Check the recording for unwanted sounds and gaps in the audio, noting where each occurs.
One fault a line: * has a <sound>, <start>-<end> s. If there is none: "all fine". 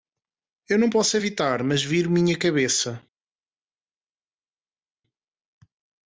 all fine